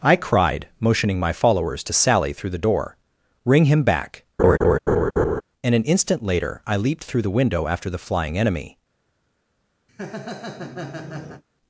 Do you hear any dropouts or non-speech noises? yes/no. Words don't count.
yes